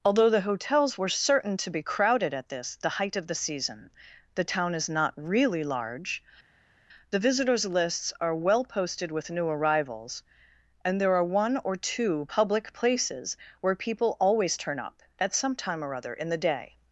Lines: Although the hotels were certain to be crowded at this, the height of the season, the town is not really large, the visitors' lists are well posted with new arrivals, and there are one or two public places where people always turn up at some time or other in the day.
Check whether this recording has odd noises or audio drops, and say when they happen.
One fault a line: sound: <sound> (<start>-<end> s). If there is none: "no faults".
no faults